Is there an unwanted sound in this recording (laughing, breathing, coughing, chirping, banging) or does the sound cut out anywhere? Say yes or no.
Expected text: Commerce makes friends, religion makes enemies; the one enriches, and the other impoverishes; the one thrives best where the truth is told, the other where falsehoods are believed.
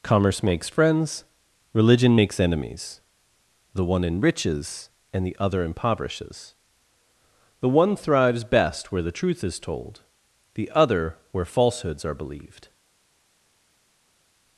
no